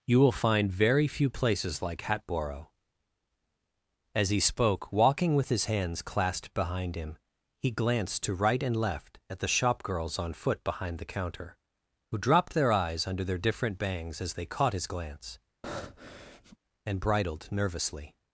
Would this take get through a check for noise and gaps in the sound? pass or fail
fail